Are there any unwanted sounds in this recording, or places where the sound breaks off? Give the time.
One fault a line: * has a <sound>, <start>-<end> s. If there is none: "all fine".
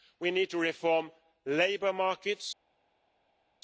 all fine